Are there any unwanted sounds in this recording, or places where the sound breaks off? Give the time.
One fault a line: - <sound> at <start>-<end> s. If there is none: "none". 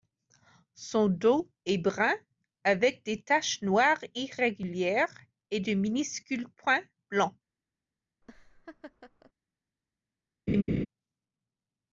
- laugh at 8.2-9.3 s
- laugh at 10.5-10.9 s